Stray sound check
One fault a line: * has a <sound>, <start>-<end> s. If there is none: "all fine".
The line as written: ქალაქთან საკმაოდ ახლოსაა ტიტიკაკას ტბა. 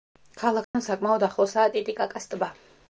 * has a dropout, 0.6-0.7 s